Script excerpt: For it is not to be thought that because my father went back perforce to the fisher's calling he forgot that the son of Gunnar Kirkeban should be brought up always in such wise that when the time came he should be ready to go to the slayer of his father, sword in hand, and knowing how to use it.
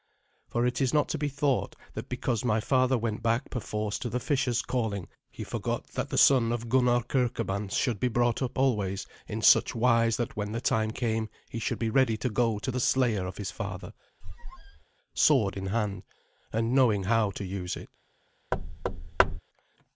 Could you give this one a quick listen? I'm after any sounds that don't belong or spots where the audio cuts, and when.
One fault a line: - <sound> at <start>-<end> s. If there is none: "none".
- squeak at 14.2-14.8 s
- thud at 18.5-19.4 s